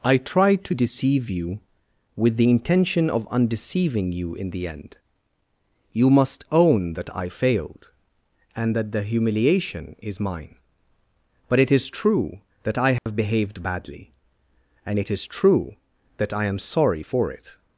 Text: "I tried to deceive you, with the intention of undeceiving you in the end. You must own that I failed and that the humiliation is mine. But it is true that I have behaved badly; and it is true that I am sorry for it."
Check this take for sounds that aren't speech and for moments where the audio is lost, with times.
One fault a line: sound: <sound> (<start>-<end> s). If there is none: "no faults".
sound: dropout (13.0-13.1 s)